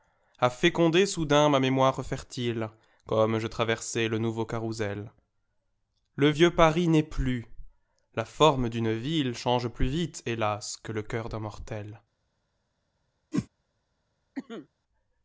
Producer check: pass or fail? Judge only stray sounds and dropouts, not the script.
fail